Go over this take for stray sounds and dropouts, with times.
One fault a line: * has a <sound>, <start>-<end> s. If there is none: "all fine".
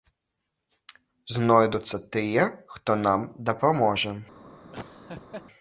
* has a laugh, 4.7-5.5 s